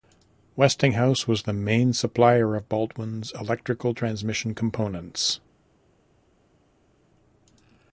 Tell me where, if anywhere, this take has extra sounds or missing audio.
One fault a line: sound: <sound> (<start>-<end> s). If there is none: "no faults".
no faults